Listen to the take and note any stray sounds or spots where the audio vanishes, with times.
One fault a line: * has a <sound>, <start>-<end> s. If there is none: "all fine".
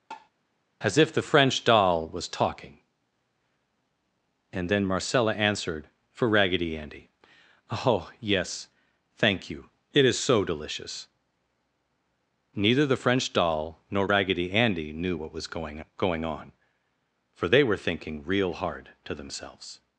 * has a tap, 0.1-0.3 s